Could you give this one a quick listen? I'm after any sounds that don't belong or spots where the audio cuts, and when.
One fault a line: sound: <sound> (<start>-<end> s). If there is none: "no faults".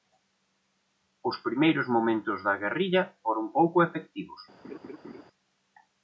sound: laugh (4.6-5.2 s)